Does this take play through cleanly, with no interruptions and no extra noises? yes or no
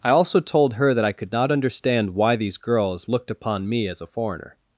yes